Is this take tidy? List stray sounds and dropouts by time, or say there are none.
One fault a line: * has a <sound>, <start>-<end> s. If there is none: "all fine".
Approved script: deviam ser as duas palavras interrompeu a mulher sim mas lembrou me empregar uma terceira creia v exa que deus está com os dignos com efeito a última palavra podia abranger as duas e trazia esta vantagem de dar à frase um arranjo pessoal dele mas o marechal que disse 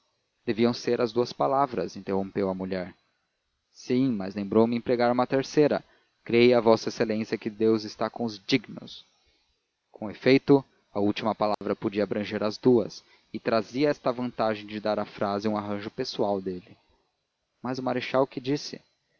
* has a dropout, 11.5-11.6 s